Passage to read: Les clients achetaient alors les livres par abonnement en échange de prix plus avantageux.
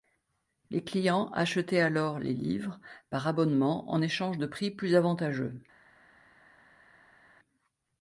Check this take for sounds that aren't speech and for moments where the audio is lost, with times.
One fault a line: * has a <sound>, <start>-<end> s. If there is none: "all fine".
all fine